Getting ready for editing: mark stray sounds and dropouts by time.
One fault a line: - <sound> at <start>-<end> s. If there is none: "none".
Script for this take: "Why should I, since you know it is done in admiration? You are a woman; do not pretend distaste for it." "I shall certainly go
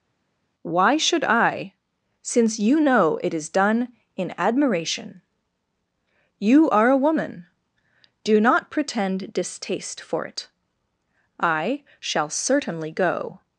none